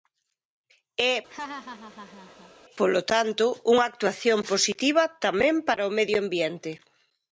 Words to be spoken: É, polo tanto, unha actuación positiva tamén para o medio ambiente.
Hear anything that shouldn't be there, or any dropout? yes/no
yes